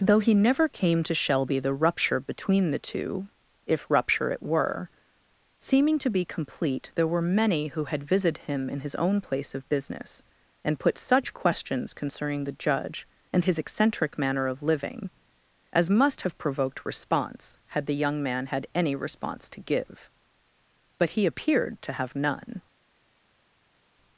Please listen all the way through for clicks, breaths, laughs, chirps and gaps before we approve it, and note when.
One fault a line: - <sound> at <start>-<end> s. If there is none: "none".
none